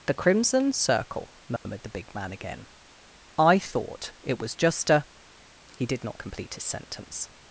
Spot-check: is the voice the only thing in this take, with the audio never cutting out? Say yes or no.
no